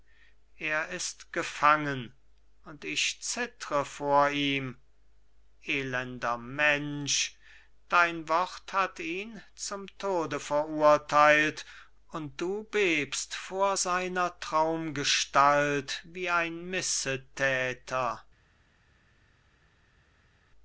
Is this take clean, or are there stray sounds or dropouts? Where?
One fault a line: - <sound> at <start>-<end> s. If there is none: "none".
none